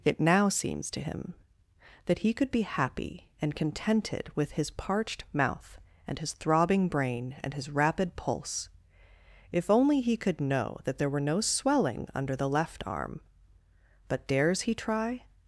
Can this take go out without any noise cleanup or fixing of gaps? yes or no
yes